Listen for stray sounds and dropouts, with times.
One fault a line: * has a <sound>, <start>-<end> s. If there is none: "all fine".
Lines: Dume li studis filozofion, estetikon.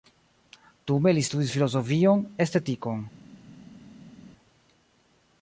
all fine